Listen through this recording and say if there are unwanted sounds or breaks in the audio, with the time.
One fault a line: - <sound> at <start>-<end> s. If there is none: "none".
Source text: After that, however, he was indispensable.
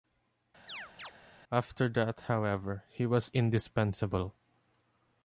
- chirp at 0.7-1.1 s